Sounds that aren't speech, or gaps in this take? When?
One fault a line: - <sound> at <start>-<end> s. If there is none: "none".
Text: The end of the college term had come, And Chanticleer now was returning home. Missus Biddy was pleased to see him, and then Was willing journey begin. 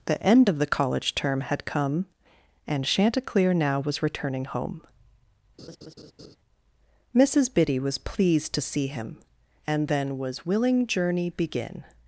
- laugh at 5.6-6.4 s